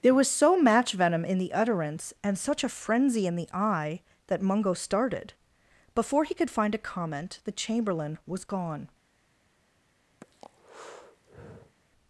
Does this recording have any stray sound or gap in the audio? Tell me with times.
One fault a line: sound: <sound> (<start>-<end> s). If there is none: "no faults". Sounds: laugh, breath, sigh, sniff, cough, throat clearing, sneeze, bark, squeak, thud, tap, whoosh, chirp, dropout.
sound: breath (10.2-11.8 s)